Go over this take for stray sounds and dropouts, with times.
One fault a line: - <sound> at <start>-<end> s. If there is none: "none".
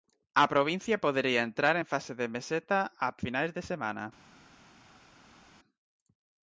none